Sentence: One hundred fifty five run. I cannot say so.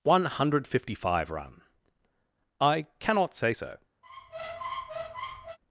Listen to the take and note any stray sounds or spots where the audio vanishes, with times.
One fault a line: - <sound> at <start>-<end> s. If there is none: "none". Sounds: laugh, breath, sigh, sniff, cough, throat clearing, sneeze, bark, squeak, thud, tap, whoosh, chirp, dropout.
- squeak at 4.0-5.6 s